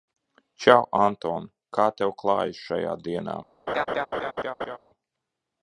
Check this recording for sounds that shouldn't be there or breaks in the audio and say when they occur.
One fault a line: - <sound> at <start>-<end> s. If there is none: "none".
- laugh at 3.7-4.8 s